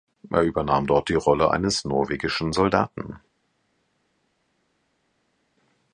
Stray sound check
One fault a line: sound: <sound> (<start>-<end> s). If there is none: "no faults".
no faults